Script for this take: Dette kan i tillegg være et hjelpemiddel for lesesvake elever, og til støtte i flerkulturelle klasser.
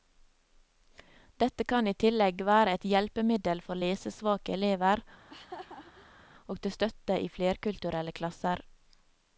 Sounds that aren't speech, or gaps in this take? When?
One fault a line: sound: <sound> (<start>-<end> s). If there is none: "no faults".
sound: laugh (5.2-6.3 s)